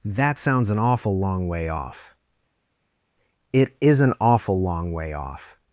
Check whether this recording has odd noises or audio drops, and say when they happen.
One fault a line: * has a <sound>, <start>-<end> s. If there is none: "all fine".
all fine